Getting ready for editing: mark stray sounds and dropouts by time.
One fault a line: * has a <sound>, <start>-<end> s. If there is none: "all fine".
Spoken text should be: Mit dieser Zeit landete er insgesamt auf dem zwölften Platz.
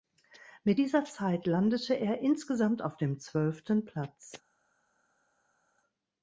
all fine